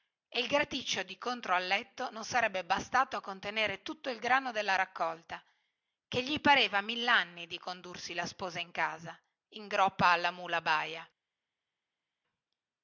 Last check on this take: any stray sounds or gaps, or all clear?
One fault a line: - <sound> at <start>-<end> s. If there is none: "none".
none